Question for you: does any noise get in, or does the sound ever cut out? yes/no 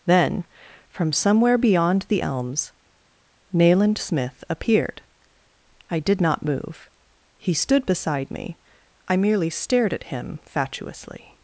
no